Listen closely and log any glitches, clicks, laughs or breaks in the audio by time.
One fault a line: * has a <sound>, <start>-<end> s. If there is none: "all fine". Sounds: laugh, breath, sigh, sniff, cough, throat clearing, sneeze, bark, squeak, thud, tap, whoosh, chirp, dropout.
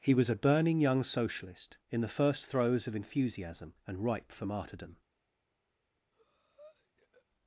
* has a breath, 6.1-7.3 s